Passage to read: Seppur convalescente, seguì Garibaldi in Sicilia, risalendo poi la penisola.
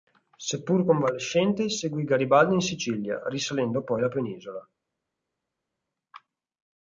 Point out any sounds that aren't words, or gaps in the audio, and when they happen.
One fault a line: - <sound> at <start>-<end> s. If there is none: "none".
none